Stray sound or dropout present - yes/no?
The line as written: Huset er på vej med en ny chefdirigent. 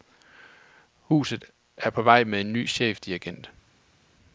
no